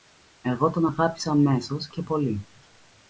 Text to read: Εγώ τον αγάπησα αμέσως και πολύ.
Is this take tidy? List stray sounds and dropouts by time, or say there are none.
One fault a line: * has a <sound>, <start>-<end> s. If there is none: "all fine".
all fine